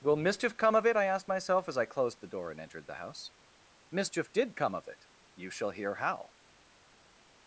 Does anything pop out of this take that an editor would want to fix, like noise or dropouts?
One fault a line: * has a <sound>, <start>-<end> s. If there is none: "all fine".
all fine